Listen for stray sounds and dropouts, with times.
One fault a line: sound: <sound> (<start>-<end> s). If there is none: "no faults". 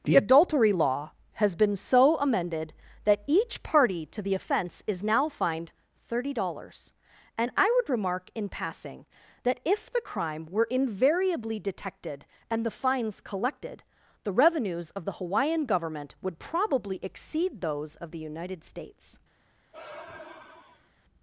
sound: sigh (19.7-20.9 s)